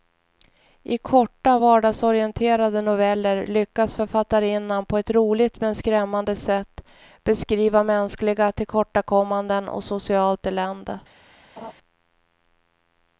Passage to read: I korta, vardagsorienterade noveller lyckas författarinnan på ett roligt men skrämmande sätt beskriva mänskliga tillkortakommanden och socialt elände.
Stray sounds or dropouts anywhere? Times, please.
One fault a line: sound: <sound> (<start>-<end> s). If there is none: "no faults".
sound: laugh (11.6-11.7 s)